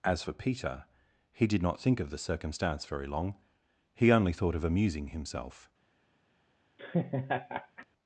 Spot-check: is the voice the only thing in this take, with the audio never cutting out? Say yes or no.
no